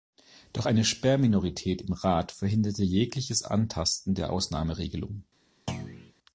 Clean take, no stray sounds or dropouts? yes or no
no